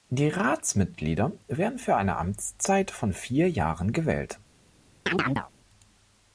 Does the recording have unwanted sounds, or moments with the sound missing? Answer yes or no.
yes